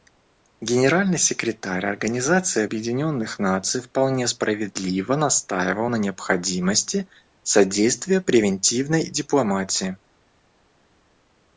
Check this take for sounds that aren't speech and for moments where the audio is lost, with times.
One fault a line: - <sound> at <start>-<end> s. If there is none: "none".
none